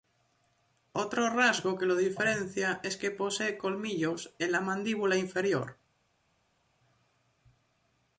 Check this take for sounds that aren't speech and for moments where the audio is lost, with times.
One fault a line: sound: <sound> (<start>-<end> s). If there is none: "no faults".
no faults